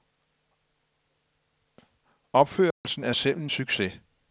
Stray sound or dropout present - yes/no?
yes